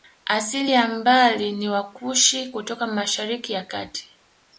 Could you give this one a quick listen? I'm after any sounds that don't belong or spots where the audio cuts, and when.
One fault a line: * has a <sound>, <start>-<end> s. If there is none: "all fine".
all fine